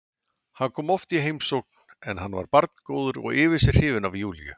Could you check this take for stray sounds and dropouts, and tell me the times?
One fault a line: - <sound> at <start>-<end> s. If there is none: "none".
none